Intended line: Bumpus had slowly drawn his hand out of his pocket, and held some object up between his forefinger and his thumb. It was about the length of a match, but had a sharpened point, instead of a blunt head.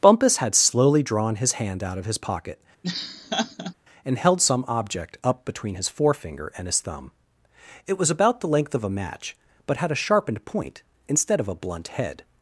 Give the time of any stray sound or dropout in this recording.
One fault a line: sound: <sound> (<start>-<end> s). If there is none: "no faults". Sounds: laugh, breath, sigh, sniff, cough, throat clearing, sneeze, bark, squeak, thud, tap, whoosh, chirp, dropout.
sound: laugh (2.8-3.7 s)